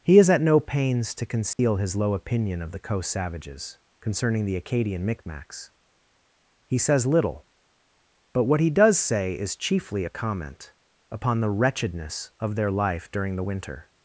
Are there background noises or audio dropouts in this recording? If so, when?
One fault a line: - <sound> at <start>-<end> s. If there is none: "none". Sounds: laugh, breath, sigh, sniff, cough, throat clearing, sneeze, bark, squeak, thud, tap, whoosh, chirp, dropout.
- dropout at 1.5-1.6 s